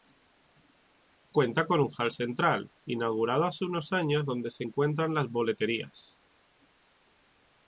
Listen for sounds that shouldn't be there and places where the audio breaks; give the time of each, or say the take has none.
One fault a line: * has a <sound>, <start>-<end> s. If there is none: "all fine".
all fine